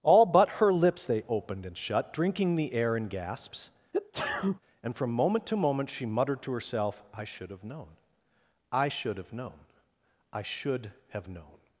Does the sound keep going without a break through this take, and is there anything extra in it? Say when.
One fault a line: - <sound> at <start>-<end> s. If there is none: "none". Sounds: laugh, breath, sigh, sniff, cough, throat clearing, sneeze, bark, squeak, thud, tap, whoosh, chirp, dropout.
- sneeze at 3.9-4.6 s